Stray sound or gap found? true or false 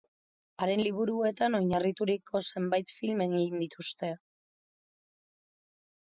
false